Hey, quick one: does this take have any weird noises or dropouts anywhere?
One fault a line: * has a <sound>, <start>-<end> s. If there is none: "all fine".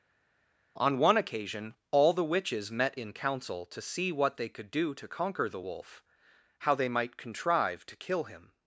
all fine